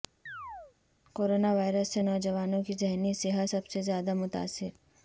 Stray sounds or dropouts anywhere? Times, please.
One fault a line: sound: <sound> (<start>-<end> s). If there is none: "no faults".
sound: chirp (0.3-0.8 s)